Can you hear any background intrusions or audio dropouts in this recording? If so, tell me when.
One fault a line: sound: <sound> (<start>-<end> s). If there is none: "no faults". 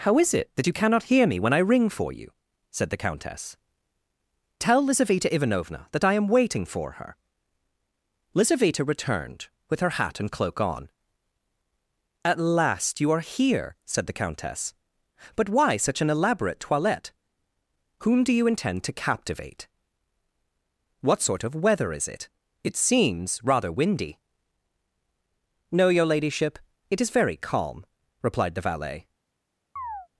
sound: chirp (29.8-30.1 s)